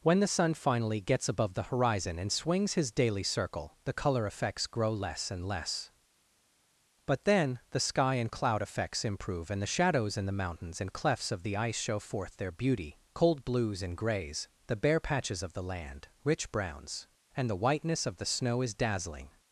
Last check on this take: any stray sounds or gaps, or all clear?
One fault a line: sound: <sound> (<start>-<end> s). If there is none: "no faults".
no faults